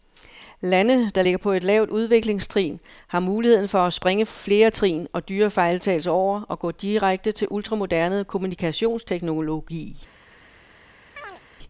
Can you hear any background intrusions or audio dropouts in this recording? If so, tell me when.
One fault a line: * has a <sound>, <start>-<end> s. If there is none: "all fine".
* has a chirp, 11.2-11.4 s